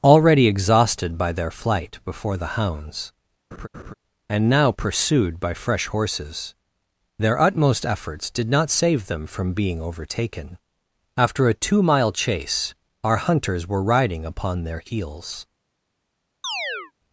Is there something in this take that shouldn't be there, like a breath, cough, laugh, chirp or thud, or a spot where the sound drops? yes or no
yes